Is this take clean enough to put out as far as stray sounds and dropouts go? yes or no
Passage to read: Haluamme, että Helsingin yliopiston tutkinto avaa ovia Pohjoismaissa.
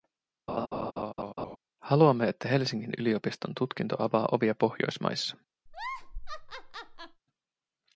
no